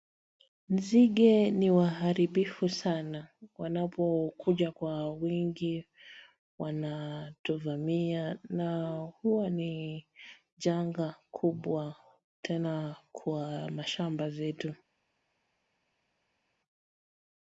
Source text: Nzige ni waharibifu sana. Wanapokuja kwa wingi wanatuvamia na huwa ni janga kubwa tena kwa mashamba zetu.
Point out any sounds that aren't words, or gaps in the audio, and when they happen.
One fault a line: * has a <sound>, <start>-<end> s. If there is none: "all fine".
all fine